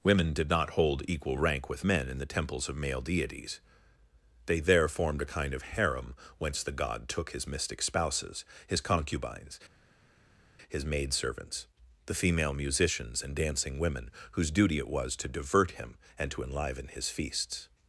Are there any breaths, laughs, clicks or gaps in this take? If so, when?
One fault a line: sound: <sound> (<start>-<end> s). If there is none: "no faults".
no faults